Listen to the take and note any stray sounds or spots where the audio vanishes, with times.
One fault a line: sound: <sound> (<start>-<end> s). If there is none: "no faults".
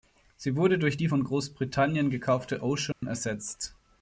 sound: dropout (2.9-3.0 s)